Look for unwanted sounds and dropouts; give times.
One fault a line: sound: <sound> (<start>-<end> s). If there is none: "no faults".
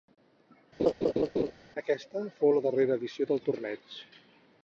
sound: laugh (0.8-1.5 s)